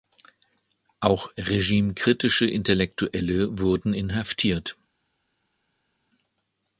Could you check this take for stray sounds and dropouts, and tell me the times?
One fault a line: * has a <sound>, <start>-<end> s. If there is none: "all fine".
all fine